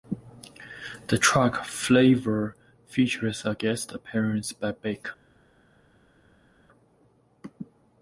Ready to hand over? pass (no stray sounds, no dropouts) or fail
pass